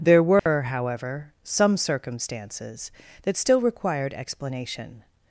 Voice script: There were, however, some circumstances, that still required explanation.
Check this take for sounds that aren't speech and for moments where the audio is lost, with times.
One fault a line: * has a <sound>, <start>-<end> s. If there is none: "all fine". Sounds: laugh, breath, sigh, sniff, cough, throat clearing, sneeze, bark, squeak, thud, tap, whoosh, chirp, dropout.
* has a dropout, 0.4-0.5 s